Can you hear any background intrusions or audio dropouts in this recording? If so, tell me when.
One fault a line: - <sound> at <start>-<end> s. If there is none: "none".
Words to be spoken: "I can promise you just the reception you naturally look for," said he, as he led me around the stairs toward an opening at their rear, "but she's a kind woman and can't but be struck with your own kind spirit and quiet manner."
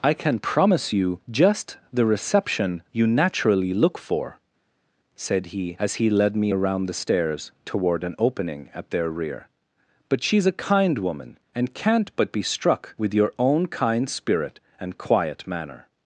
none